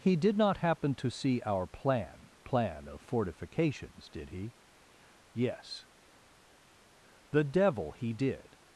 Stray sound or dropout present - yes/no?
no